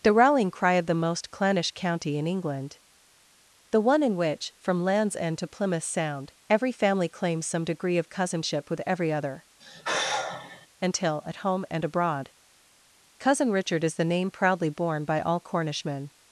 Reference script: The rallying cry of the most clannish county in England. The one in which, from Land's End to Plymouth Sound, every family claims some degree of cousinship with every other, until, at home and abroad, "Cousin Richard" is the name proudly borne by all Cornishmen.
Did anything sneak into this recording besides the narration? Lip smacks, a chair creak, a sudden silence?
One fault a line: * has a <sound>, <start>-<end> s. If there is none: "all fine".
* has a sigh, 9.6-10.7 s